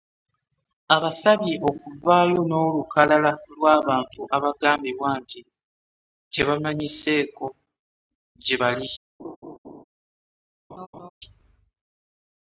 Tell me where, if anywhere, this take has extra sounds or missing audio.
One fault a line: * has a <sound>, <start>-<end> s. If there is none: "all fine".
* has a laugh, 9.2-9.8 s
* has a laugh, 10.7-11.1 s